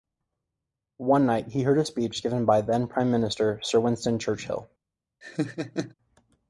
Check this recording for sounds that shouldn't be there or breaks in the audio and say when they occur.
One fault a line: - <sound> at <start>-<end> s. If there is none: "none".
- laugh at 5.2-5.9 s